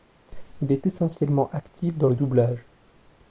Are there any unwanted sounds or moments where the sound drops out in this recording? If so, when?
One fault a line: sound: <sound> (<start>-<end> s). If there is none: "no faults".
no faults